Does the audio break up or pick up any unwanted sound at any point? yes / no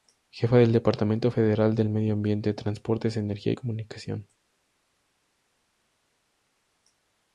no